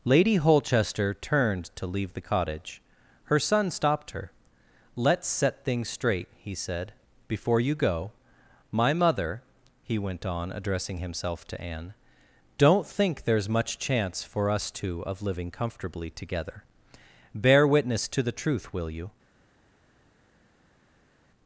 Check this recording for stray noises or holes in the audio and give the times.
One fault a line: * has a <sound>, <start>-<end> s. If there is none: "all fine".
all fine